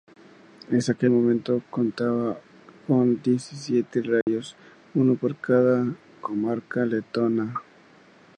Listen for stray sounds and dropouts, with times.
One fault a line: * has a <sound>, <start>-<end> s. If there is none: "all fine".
* has a dropout, 4.2-4.3 s